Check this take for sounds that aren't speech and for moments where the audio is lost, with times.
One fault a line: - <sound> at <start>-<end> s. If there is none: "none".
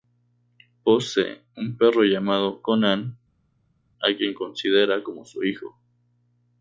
none